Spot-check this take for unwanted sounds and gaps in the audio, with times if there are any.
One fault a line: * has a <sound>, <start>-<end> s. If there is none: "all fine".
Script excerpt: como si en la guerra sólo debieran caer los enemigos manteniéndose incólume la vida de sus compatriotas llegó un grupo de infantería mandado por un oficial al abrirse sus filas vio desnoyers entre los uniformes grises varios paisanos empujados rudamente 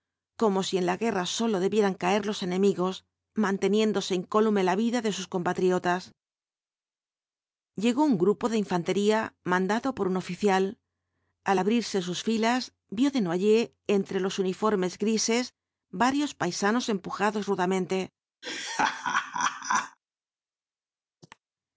* has a laugh, 18.4-20.0 s
* has a cough, 21.2-21.4 s